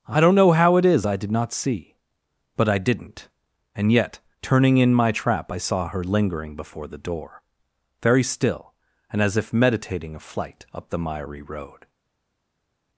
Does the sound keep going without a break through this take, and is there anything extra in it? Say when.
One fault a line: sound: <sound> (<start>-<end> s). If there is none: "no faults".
no faults